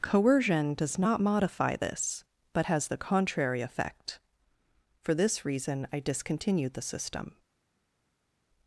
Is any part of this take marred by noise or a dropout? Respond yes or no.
no